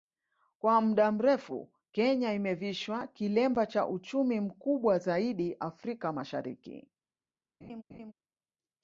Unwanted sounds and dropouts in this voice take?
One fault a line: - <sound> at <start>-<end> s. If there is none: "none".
- laugh at 7.6-8.1 s